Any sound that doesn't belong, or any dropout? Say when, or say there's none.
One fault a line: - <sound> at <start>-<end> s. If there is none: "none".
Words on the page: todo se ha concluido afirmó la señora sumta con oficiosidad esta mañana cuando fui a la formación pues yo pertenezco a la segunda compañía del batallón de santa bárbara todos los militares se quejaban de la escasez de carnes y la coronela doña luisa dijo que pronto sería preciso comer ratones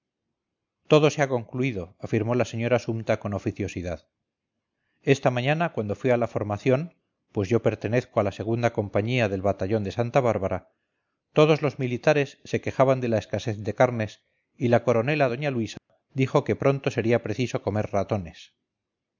- dropout at 15.8-15.9 s